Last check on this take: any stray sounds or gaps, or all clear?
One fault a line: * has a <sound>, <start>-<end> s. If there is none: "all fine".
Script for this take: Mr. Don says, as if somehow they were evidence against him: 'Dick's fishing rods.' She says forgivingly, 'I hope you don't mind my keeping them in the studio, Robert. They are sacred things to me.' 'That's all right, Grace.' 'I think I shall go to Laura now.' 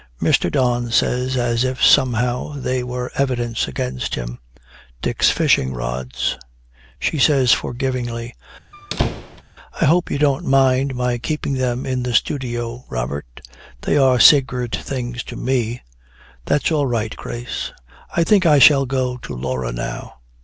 * has a squeak, 8.7-9.4 s